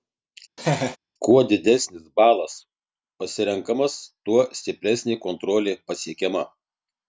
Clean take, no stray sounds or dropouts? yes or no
no